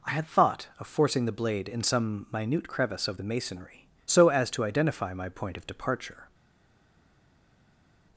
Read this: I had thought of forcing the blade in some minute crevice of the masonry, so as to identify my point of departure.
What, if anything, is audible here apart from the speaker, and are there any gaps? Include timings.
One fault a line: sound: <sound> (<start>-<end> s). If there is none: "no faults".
no faults